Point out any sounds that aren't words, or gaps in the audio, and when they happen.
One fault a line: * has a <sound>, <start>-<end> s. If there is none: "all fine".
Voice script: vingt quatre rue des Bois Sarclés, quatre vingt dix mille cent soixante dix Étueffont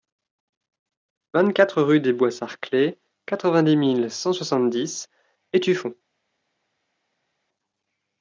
all fine